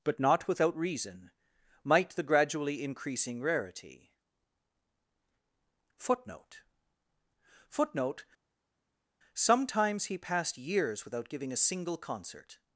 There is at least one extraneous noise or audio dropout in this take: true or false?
false